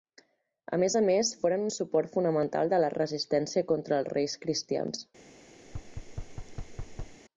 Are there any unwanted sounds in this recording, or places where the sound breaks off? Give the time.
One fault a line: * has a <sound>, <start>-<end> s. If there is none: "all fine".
* has a thud, 5.6-7.2 s